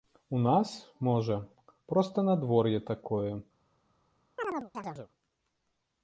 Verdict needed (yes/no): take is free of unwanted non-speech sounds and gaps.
no